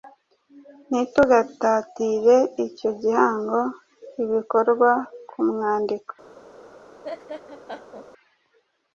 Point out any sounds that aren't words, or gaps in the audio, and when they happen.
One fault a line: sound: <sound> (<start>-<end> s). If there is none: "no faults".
sound: laugh (7.0-8.1 s)